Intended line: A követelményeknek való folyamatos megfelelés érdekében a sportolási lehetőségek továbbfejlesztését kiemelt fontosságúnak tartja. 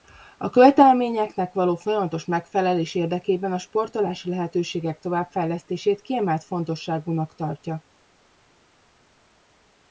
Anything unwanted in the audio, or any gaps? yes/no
no